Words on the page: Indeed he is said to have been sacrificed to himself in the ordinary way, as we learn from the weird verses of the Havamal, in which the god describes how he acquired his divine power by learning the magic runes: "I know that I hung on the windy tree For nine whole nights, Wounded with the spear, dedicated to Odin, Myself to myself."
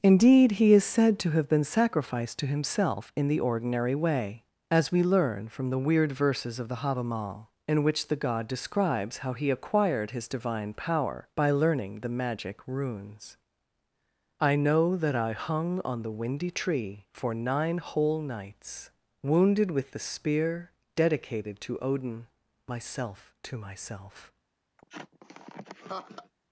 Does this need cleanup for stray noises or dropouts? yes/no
yes